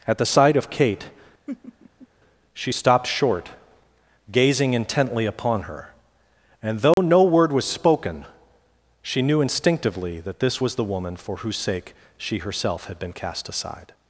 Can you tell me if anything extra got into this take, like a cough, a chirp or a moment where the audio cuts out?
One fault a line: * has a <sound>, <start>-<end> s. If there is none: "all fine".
* has a laugh, 1.5-2.1 s
* has a dropout, 6.9-7.0 s